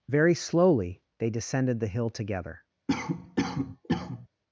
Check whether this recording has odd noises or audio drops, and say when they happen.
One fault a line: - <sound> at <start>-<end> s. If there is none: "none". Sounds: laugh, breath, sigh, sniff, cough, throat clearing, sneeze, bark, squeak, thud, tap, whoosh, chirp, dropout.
- cough at 2.9-4.3 s